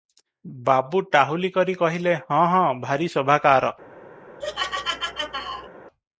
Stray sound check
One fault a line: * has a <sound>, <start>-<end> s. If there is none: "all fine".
* has a laugh, 4.4-5.7 s